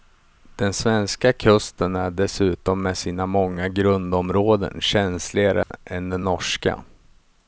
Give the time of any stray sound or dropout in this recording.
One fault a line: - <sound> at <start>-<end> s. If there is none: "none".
- dropout at 5.6-5.7 s